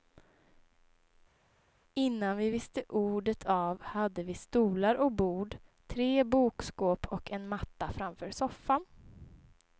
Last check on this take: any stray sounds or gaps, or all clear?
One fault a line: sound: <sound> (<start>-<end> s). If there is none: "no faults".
no faults